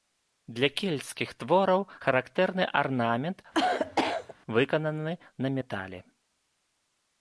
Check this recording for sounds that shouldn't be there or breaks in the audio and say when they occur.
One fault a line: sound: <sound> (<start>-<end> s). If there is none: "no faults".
sound: cough (3.5-4.3 s)